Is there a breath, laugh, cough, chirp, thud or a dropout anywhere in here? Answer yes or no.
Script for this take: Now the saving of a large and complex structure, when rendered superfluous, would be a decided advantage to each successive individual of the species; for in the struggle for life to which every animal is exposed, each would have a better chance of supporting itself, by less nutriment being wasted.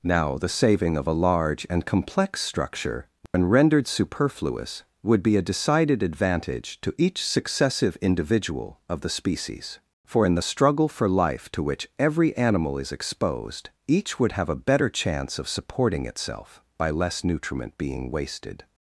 yes